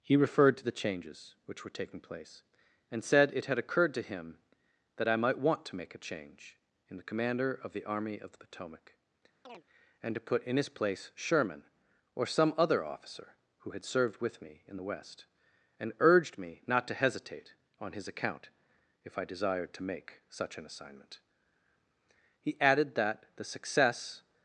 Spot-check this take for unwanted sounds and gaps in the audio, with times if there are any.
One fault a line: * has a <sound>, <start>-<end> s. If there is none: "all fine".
* has a chirp, 9.4-9.6 s